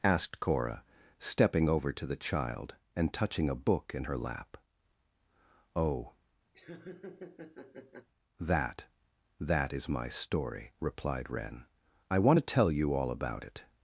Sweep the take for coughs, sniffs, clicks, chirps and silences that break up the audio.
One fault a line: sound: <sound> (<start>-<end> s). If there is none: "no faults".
sound: laugh (6.5-8.1 s)